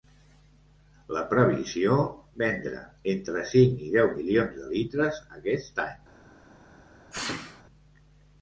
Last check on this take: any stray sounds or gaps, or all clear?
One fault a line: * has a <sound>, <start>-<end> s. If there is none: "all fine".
* has a sneeze, 7.1-7.6 s